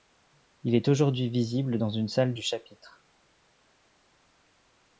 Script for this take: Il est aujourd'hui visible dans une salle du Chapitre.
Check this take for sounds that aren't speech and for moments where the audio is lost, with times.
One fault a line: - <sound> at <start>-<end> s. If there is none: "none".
none